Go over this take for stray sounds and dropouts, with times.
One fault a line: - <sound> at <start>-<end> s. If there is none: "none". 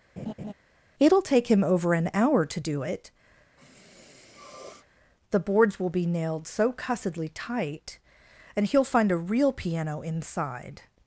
- laugh at 0.2-0.5 s
- sniff at 3.6-4.9 s